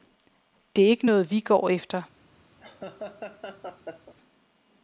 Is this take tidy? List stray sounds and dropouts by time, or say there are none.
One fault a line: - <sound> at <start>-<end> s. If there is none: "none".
- laugh at 2.6-4.1 s